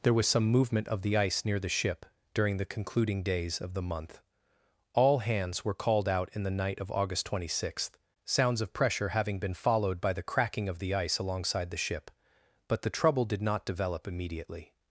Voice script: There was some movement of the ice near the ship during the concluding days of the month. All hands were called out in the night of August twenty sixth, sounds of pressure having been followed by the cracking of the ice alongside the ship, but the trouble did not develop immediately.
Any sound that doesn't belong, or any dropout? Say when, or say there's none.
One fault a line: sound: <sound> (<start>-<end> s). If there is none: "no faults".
no faults